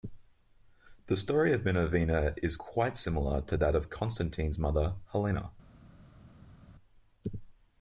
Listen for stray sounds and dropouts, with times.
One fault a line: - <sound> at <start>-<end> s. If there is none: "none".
none